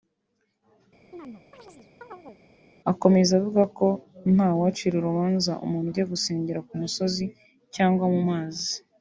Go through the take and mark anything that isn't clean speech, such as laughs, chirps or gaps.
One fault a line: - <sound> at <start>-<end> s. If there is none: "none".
- chirp at 1.1-2.4 s